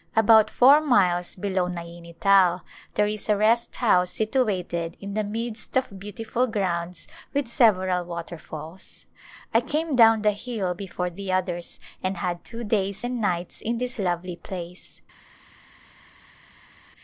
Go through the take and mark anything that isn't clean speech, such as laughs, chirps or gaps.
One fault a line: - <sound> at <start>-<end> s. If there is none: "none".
none